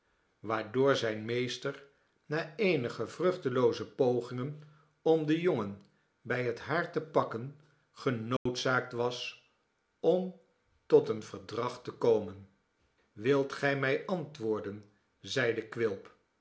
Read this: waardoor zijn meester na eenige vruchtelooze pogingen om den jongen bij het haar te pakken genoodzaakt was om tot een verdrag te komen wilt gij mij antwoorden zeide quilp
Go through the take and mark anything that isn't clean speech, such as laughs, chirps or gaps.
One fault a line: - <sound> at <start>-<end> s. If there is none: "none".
- dropout at 8.4-8.5 s